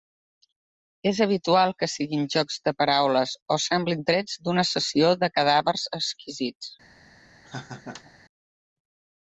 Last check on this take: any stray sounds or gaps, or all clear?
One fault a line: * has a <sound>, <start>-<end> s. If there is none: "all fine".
* has a laugh, 7.4-8.1 s